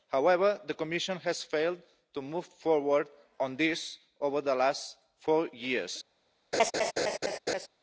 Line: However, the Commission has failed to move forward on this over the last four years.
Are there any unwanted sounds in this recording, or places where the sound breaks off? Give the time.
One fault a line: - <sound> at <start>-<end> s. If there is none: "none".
- laugh at 6.5-7.7 s